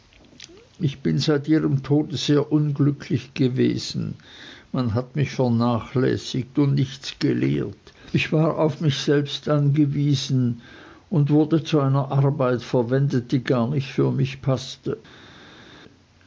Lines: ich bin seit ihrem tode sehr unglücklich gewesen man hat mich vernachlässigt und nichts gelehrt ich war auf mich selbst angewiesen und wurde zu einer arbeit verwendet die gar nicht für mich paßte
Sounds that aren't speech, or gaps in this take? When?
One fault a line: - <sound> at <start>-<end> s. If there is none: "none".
none